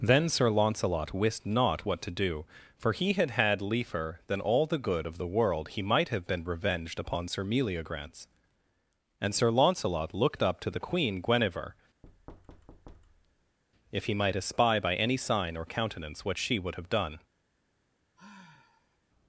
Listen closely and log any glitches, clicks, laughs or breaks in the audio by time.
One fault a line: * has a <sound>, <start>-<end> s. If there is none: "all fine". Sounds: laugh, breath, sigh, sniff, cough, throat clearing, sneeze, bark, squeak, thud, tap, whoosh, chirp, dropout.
* has a thud, 12.0-13.6 s
* has a sigh, 18.2-19.0 s